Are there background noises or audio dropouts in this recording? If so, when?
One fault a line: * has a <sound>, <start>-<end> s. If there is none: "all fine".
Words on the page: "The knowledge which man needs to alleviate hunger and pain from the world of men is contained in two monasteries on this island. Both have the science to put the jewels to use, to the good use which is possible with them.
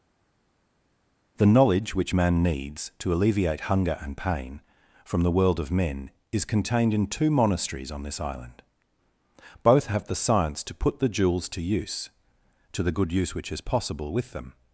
all fine